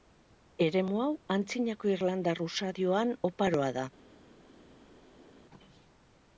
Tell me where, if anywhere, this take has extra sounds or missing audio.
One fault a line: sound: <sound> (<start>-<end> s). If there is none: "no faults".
no faults